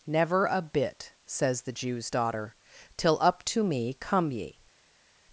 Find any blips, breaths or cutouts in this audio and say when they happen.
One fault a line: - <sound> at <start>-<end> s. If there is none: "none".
none